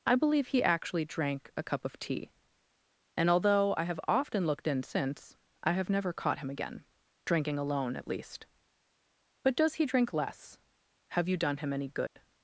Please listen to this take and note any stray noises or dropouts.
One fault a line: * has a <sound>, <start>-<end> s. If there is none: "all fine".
* has a dropout, 12.1-12.2 s